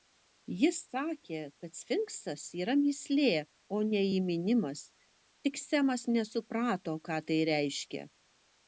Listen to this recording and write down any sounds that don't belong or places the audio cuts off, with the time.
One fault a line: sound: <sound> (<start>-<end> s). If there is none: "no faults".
no faults